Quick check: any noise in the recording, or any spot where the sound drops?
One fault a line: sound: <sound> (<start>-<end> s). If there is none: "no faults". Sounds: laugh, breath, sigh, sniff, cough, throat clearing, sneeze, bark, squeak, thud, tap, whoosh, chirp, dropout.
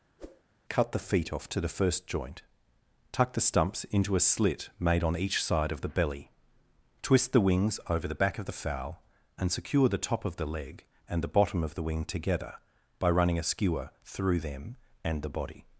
sound: whoosh (0.2-0.4 s)